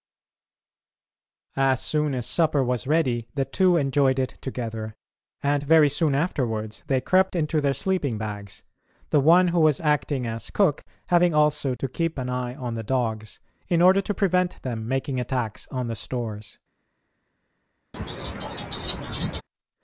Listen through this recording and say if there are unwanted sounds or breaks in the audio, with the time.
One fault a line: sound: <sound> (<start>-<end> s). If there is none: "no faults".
sound: laugh (17.9-19.4 s)